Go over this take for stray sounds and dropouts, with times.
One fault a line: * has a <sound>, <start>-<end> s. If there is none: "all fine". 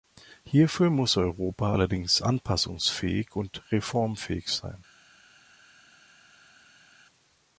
all fine